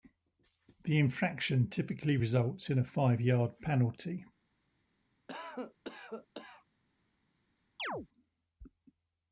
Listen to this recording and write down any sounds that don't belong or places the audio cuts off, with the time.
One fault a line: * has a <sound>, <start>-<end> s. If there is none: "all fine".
* has a cough, 5.3-6.7 s
* has a chirp, 7.8-8.1 s